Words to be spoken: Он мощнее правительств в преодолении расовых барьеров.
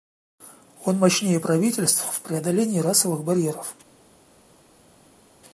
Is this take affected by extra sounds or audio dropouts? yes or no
no